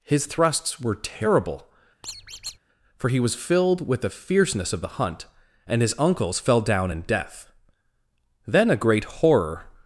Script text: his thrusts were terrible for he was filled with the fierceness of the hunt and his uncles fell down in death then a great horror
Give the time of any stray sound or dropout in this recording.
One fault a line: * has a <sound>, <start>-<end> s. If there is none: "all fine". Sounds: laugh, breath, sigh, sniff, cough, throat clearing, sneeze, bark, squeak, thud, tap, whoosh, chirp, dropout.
* has a squeak, 2.0-2.6 s